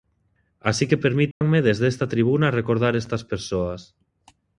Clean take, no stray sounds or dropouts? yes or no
no